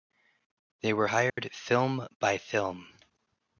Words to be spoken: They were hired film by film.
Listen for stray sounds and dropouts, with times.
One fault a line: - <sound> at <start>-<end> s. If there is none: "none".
- dropout at 1.3-1.4 s